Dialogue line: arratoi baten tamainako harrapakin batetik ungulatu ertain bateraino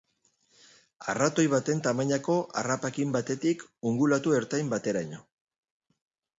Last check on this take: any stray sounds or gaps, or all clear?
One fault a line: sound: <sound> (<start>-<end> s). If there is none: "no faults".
no faults